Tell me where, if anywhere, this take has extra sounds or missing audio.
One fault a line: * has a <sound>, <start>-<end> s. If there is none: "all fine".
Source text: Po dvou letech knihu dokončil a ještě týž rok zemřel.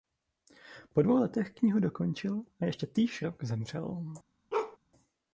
* has a bark, 4.5-4.8 s